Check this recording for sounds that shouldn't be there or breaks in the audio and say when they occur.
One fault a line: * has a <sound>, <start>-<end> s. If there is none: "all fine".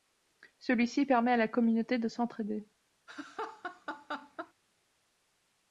* has a laugh, 3.1-4.5 s